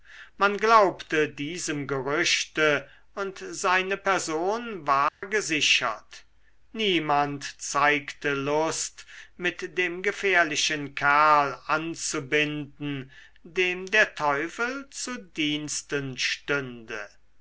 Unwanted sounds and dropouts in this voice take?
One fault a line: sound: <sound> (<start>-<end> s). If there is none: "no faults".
sound: dropout (5.1-5.2 s)